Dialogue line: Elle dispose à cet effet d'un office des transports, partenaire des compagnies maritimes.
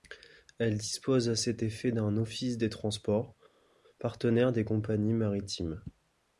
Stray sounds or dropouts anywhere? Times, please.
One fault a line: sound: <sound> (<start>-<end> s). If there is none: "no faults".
no faults